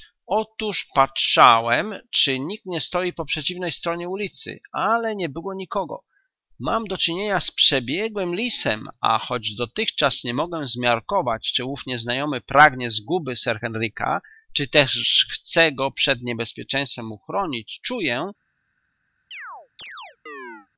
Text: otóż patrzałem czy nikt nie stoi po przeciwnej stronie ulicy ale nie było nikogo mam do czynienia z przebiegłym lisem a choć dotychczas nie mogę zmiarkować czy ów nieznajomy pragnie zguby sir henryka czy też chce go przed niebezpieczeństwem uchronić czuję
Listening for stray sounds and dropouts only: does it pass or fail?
fail